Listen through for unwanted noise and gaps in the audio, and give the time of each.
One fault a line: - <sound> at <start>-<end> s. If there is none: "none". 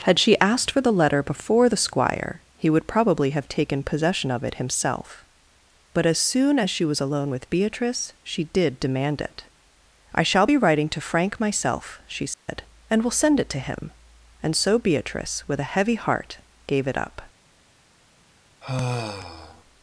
- dropout at 12.3-12.5 s
- sigh at 18.6-19.6 s